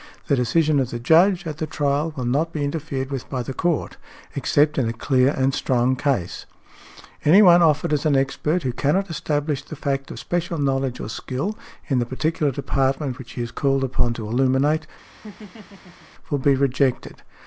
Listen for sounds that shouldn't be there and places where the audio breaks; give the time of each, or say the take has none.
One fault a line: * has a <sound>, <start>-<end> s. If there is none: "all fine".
* has a laugh, 15.1-16.1 s